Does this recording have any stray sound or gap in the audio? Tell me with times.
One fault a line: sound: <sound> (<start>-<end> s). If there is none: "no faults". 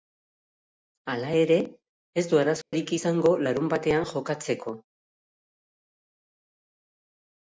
sound: dropout (2.6-2.7 s)